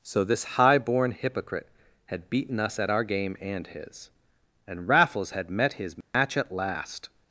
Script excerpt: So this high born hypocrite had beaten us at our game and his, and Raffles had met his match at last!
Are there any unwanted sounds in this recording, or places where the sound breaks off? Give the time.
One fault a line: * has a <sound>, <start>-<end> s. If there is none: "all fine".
* has a dropout, 6.0-6.1 s